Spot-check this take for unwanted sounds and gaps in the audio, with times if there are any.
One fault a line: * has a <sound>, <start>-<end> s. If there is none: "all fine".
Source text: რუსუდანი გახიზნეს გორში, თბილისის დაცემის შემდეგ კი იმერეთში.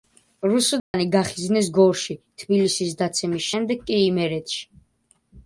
* has a dropout, 0.8-0.9 s